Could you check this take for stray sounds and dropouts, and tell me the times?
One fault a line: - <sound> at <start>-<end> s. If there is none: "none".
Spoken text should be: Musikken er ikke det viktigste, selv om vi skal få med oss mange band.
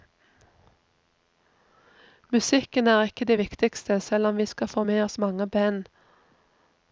none